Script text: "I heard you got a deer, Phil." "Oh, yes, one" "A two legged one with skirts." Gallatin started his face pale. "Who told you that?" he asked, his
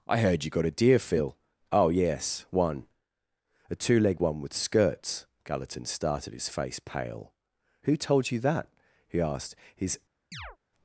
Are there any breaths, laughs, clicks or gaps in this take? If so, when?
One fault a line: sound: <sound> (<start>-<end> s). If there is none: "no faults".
sound: chirp (10.3-10.6 s)